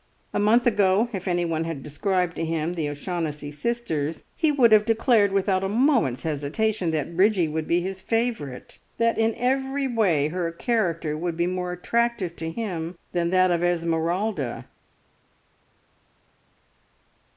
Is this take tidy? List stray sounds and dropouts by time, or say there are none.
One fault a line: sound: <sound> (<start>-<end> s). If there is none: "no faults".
no faults